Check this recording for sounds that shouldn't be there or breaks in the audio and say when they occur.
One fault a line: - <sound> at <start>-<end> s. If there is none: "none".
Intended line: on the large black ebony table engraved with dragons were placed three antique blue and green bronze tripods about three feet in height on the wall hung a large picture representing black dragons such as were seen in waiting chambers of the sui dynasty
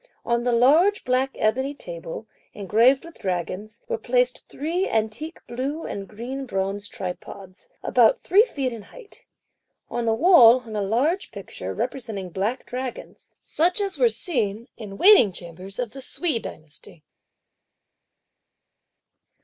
none